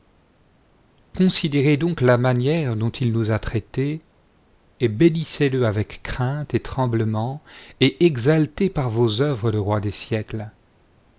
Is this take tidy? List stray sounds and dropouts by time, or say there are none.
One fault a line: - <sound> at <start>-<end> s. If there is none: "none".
none